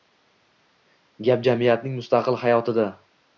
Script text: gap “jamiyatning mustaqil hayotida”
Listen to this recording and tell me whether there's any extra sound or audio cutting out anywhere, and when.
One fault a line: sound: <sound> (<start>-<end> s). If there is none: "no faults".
no faults